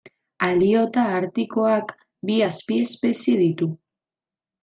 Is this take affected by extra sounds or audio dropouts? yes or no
no